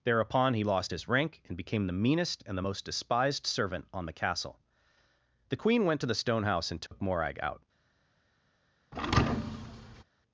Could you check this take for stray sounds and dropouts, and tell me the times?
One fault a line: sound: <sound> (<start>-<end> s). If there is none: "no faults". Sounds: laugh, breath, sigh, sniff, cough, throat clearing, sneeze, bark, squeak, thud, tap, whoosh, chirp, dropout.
sound: dropout (6.9-6.9 s)
sound: thud (8.9-10.0 s)